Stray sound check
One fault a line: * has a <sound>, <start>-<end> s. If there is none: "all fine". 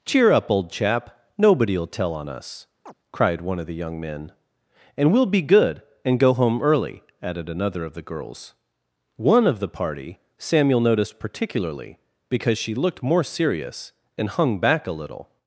* has a chirp, 2.9-2.9 s